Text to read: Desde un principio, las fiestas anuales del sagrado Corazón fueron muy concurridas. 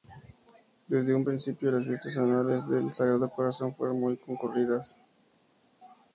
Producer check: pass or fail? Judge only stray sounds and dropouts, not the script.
pass